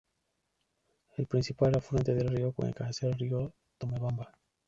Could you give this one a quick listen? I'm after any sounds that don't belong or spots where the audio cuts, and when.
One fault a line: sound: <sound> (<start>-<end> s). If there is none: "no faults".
no faults